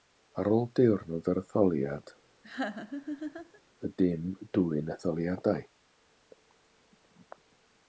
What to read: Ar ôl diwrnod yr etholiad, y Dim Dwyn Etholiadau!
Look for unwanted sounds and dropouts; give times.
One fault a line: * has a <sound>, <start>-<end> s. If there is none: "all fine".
* has a laugh, 2.4-3.6 s